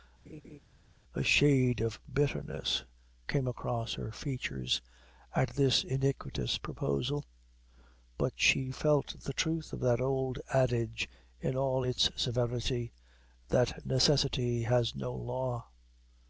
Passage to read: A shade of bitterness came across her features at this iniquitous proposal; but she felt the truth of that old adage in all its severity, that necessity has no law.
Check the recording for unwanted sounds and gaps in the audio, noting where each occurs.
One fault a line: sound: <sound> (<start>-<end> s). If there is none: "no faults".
sound: laugh (0.3-0.6 s)